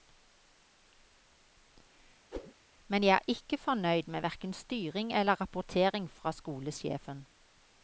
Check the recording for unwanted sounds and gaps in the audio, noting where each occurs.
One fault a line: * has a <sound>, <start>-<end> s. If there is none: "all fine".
* has a whoosh, 2.3-2.5 s